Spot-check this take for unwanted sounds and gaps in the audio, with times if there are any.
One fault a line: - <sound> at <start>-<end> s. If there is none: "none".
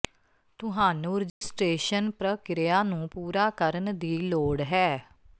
- dropout at 1.3-1.4 s